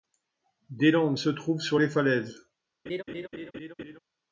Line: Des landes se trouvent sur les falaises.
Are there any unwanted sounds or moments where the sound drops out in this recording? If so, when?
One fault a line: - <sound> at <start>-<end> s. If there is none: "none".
- laugh at 2.9-4.0 s